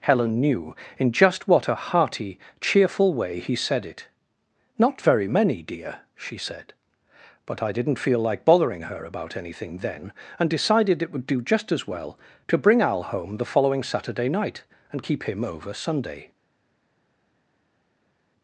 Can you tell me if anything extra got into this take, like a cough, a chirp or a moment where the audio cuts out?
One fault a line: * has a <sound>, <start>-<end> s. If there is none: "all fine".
all fine